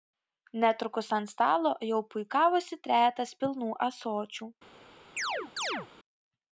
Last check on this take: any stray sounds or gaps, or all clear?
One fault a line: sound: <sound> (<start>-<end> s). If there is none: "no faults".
sound: chirp (5.2-5.9 s)